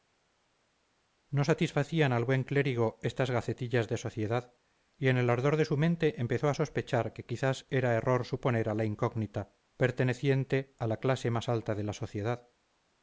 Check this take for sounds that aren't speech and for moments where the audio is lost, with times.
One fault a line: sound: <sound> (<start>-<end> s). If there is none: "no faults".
no faults